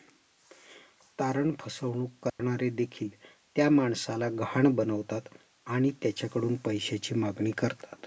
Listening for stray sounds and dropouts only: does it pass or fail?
fail